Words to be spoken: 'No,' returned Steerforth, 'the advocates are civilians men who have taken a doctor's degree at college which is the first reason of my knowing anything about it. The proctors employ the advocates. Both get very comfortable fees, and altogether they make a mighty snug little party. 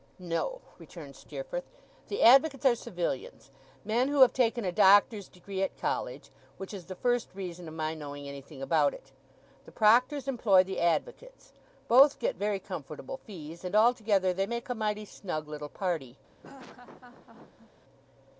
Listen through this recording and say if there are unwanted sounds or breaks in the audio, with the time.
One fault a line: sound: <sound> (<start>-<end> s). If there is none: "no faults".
sound: laugh (16.4-17.7 s)